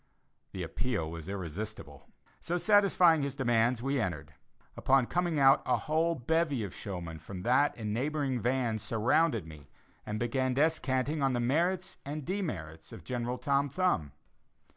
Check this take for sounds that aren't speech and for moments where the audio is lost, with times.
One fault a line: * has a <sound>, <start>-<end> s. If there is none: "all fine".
all fine